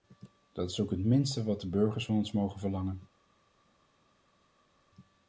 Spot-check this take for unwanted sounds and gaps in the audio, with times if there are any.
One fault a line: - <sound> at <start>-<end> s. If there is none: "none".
none